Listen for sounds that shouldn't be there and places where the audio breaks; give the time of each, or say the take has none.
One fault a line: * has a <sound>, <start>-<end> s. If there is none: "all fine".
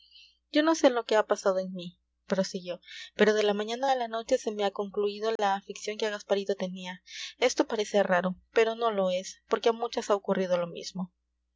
* has a dropout, 5.4-5.4 s